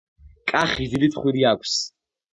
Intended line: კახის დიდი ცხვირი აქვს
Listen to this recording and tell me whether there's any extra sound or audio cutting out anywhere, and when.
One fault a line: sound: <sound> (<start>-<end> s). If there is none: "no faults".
no faults